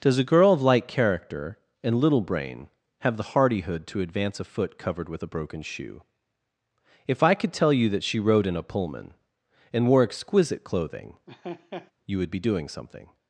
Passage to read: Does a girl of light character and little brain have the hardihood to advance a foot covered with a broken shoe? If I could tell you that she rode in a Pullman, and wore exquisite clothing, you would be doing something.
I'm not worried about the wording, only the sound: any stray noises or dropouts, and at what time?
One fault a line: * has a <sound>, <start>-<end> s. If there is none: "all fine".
* has a laugh, 11.3-11.9 s